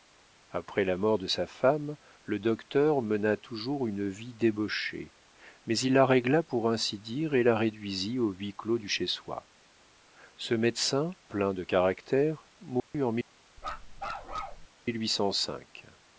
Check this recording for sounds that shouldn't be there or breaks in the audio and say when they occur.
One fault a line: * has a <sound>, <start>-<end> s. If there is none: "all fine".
* has a dropout, 12.8-12.9 s
* has a bark, 13.6-14.7 s